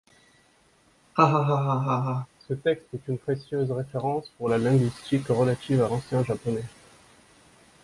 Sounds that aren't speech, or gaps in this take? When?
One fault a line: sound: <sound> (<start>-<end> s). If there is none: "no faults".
sound: laugh (1.2-2.3 s)